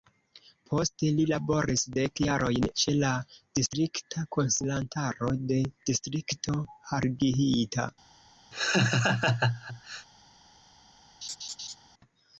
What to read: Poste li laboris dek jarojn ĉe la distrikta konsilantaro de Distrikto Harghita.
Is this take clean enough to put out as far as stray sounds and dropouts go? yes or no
no